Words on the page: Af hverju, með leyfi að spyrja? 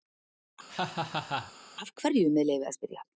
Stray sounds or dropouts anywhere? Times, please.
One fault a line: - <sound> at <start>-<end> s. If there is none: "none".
- laugh at 0.7-1.5 s